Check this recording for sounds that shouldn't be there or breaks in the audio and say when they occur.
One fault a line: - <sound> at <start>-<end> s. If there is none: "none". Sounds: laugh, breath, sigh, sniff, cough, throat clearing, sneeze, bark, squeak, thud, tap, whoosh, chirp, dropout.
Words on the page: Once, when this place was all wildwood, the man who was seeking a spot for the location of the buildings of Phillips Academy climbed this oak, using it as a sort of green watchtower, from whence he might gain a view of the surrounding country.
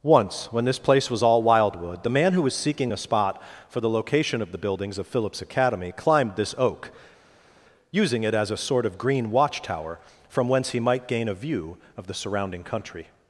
none